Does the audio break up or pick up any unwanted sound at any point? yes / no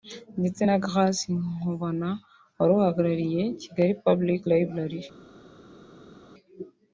no